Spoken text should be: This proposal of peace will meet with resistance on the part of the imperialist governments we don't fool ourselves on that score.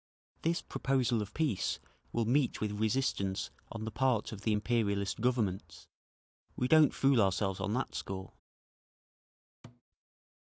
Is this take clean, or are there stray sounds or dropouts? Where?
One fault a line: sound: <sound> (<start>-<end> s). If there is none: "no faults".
sound: thud (9.6-9.8 s)